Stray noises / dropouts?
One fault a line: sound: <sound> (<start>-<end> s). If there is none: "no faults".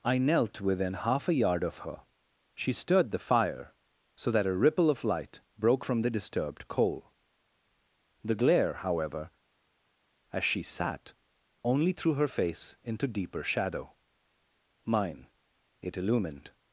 no faults